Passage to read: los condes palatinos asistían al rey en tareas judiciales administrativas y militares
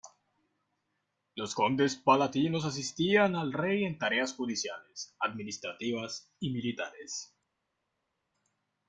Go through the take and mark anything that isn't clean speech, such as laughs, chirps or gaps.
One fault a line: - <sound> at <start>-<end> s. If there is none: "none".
none